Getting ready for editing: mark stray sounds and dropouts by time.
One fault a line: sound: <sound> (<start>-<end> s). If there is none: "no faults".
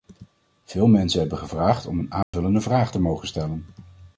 sound: dropout (2.2-2.3 s)